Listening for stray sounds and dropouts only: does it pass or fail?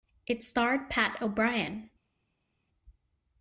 pass